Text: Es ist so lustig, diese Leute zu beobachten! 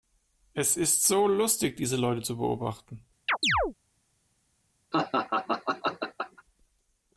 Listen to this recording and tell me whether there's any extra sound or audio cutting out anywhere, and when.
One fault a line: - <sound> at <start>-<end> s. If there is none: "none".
- chirp at 3.3-3.7 s
- laugh at 4.9-6.4 s